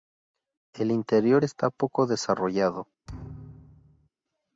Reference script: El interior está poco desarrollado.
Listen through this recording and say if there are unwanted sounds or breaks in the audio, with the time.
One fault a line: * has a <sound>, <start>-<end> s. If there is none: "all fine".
* has a thud, 3.1-4.1 s